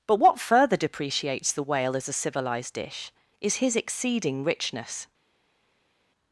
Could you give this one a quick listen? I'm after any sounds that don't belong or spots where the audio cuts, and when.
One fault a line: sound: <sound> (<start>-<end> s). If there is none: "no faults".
no faults